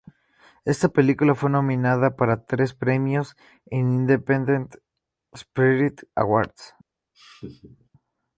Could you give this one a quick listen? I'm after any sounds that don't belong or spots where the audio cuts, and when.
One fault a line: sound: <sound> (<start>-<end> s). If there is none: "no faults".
sound: laugh (7.1-7.9 s)